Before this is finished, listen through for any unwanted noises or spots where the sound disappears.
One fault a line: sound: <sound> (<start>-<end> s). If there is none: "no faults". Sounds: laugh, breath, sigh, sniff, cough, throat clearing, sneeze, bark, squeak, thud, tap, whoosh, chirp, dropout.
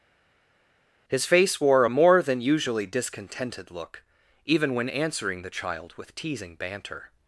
no faults